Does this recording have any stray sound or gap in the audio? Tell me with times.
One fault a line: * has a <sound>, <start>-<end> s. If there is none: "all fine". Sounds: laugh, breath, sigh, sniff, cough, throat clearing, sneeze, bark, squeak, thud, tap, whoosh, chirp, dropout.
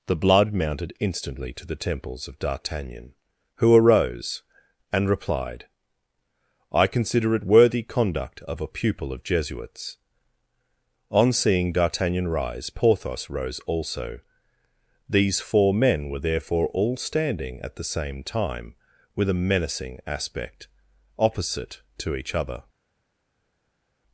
all fine